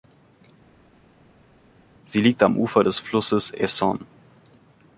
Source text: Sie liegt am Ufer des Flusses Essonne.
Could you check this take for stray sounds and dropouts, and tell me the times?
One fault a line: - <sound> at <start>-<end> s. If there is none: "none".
none